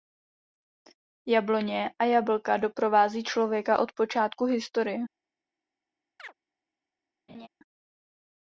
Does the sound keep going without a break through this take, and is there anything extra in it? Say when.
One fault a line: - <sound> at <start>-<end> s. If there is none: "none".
- chirp at 6.2-6.3 s
- laugh at 7.3-7.5 s